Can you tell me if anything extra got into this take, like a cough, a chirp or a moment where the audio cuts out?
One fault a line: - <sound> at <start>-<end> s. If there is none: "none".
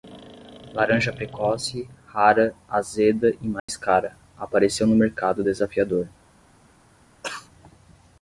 - dropout at 3.6-3.7 s
- cough at 7.2-7.5 s